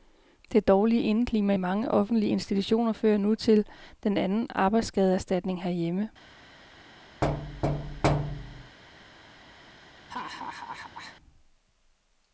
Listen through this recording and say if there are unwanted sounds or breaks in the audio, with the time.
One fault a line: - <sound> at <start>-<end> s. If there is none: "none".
- thud at 7.2-8.8 s
- laugh at 10.1-11.2 s